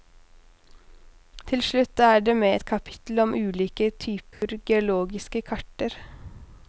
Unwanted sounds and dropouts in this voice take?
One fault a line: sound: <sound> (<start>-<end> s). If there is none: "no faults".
sound: dropout (4.3-4.4 s)